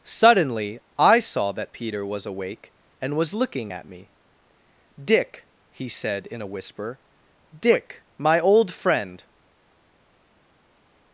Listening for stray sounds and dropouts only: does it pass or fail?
pass